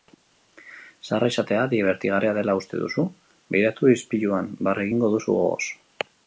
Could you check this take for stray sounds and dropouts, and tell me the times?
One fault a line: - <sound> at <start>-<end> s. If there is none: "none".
none